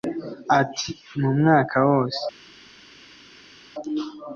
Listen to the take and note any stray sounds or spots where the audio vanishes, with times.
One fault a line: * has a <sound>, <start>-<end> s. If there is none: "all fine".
all fine